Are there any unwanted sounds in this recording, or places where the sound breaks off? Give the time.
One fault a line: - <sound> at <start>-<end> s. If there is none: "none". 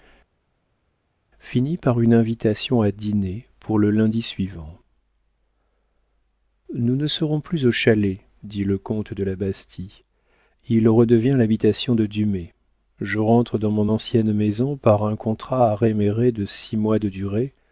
none